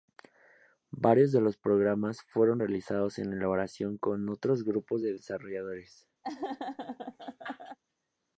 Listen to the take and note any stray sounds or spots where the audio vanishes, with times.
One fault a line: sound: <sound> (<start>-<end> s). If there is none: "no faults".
sound: laugh (6.2-7.8 s)